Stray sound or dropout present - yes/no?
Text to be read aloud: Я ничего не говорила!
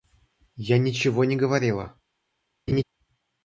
yes